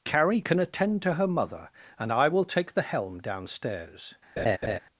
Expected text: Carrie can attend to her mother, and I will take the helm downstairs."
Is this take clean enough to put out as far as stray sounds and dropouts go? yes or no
no